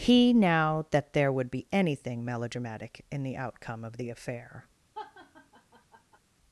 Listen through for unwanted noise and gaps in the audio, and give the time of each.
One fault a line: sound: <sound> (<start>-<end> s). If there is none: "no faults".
sound: laugh (4.9-6.2 s)